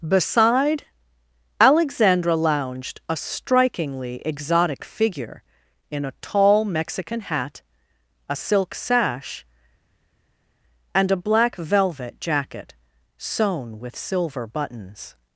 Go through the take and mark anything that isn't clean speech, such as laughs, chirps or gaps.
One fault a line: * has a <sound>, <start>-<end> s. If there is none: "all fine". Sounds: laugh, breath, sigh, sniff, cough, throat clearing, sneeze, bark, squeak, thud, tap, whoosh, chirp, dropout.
all fine